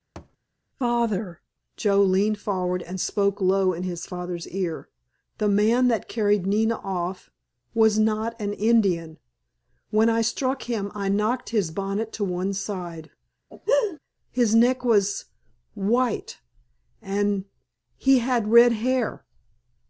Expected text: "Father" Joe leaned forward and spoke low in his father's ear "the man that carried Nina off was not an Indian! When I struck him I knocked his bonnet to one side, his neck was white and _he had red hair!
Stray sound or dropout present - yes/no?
yes